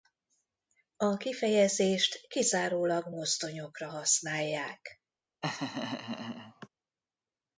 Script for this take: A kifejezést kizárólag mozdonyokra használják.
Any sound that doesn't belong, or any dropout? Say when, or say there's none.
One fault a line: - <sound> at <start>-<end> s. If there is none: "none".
- laugh at 5.4-6.7 s